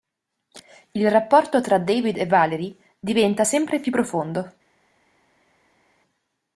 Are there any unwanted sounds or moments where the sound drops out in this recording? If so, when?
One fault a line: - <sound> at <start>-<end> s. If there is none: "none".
none